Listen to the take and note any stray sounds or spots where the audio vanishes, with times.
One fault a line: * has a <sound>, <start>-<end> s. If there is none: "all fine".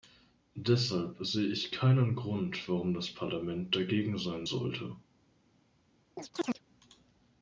* has a chirp, 6.2-6.6 s